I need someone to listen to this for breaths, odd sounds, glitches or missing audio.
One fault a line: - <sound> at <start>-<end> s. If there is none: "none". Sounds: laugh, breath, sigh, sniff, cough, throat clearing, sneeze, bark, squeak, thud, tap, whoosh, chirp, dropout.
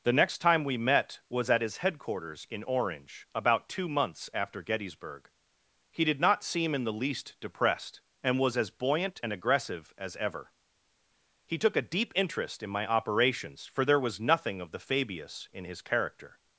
none